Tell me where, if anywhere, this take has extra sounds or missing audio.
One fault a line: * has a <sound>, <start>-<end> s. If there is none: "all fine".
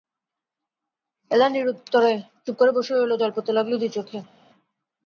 all fine